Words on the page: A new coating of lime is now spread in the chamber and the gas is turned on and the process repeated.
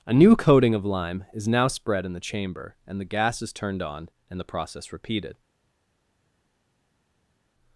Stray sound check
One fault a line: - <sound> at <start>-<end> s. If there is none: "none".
none